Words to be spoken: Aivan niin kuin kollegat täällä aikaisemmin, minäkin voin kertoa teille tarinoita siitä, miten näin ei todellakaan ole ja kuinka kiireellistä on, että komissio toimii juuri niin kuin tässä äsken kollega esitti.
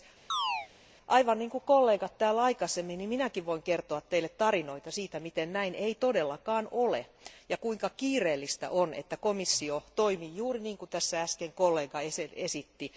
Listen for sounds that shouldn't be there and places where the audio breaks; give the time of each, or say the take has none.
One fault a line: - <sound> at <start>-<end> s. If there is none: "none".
- chirp at 0.3-0.7 s